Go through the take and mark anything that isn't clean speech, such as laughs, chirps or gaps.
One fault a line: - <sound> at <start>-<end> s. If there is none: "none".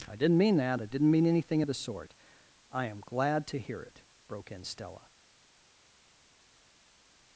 none